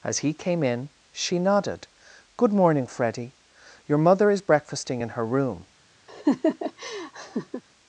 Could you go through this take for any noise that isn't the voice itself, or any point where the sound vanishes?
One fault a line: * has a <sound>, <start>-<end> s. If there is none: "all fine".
* has a laugh, 6.1-7.6 s